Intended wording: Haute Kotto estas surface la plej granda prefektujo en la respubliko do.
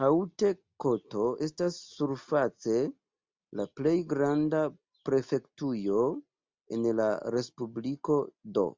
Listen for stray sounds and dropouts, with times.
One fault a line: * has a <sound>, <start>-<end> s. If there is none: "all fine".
all fine